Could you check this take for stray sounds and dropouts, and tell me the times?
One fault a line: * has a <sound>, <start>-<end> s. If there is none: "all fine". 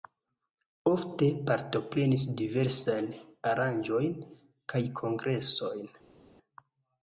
all fine